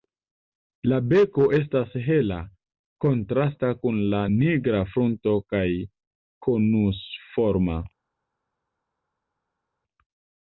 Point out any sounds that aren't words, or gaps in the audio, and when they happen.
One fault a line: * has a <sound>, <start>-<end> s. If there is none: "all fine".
all fine